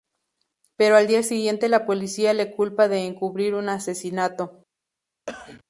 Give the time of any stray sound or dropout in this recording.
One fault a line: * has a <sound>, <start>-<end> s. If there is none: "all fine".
* has a cough, 5.3-5.6 s